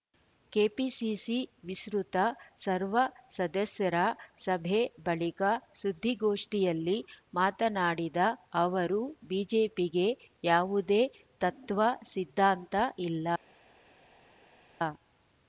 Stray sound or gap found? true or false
false